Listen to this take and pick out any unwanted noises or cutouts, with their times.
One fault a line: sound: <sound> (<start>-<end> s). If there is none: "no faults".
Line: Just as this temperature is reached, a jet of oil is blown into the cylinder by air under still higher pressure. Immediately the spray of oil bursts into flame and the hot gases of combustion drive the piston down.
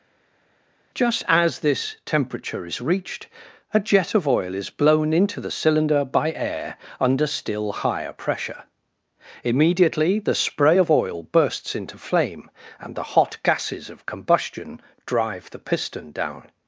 no faults